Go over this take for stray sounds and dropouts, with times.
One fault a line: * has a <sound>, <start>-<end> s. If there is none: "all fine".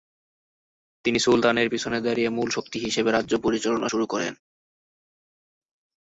all fine